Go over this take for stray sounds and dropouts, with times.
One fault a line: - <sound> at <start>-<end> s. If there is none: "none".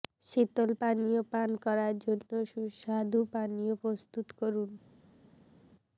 none